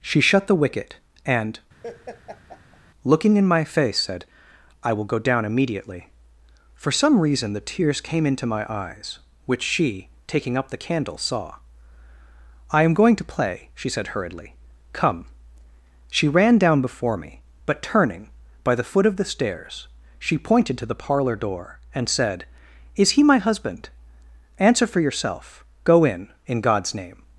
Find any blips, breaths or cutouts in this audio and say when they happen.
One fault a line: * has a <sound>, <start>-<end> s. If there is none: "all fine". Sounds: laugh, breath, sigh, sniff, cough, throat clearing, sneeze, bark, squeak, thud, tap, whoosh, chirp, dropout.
* has a laugh, 1.8-2.8 s